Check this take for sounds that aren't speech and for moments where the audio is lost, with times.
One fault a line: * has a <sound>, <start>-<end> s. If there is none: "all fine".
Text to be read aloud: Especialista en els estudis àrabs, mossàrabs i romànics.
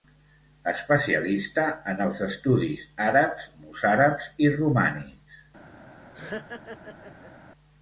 * has a laugh, 6.1-7.3 s